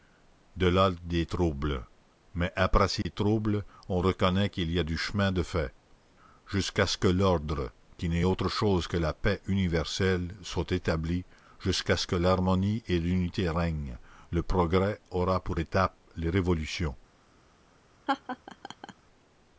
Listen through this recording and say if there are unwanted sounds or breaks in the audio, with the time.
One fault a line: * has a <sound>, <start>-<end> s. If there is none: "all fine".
* has a dropout, 3.0-3.1 s
* has a laugh, 18.1-18.9 s